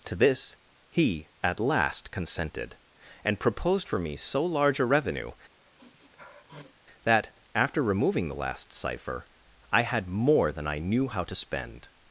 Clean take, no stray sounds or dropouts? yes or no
no